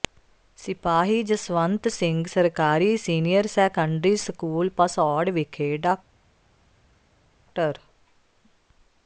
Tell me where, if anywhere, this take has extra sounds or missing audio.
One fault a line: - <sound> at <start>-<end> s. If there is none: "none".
none